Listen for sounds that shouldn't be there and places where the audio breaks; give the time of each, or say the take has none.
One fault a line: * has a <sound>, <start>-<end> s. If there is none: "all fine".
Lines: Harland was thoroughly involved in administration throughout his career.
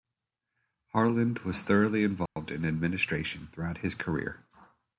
* has a dropout, 2.3-2.4 s